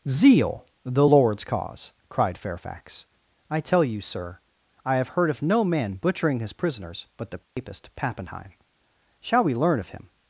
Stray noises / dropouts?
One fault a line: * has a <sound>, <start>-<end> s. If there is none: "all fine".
* has a dropout, 7.4-7.6 s